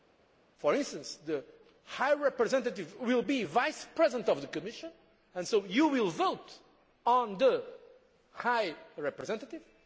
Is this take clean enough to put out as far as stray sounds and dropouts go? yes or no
yes